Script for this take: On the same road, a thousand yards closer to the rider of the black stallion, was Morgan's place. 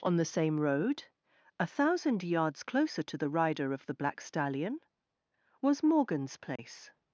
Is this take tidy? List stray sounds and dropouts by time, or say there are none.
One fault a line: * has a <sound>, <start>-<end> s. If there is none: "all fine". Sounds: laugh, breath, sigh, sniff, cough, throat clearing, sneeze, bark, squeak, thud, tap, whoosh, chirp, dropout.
* has a dropout, 6.6-6.6 s